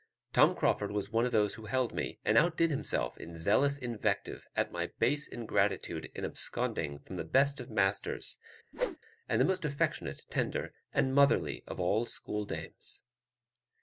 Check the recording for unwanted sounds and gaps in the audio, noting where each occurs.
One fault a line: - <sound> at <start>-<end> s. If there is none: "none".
- whoosh at 8.7-9.0 s